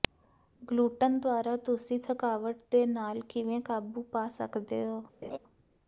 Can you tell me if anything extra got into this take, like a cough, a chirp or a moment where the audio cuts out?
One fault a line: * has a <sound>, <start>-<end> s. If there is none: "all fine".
* has a laugh, 5.2-5.4 s